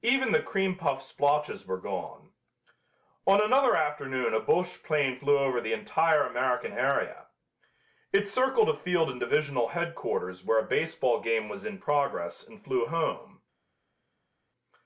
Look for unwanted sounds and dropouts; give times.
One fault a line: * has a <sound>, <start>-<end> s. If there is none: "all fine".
all fine